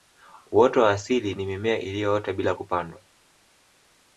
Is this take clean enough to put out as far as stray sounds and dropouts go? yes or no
yes